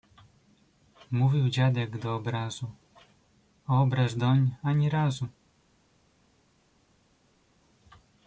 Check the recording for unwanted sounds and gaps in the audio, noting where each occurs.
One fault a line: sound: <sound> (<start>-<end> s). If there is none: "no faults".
no faults